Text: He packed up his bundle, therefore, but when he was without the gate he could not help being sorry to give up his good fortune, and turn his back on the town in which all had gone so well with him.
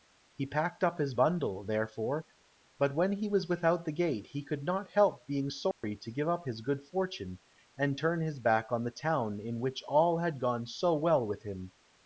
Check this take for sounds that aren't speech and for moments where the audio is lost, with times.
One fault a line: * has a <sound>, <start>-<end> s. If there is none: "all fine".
* has a dropout, 5.7-5.8 s